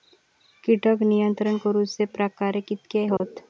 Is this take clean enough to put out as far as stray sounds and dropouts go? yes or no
no